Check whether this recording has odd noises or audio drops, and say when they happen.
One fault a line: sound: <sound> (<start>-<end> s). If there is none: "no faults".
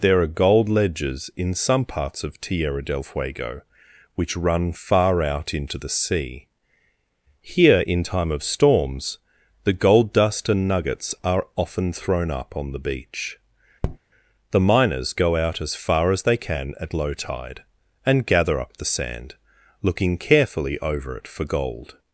sound: tap (13.8-14.0 s)